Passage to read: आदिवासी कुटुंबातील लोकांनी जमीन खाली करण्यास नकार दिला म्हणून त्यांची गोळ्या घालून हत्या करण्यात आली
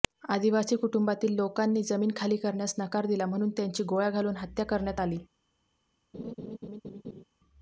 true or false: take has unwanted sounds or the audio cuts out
true